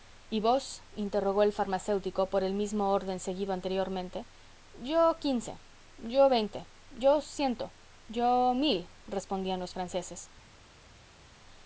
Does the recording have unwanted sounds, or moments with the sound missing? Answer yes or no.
no